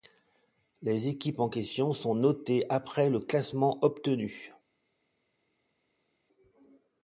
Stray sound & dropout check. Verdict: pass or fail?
pass